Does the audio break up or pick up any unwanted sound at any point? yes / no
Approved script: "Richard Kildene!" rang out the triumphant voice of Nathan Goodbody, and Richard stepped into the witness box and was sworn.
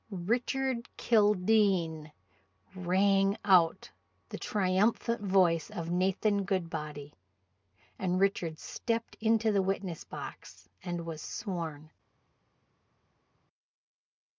no